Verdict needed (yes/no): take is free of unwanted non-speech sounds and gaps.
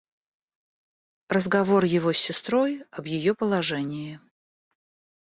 yes